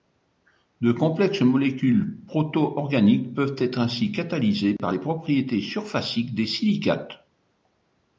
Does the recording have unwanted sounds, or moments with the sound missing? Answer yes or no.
yes